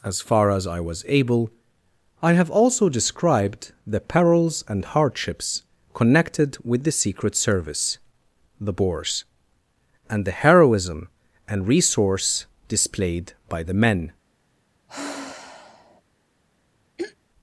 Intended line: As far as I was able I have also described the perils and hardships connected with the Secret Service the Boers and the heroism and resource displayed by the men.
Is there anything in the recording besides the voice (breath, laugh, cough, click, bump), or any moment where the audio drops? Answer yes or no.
yes